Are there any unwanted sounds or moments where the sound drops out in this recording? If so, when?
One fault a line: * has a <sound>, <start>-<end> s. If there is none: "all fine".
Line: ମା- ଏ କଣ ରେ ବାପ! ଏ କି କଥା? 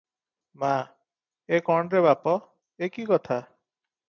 all fine